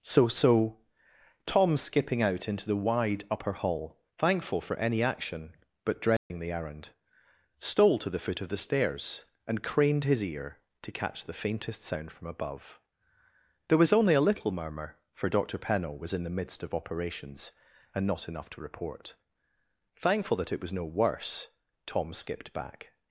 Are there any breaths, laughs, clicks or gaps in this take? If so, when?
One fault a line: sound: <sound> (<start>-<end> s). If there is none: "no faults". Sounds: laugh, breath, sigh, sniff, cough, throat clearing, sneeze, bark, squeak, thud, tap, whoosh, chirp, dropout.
sound: dropout (6.2-6.3 s)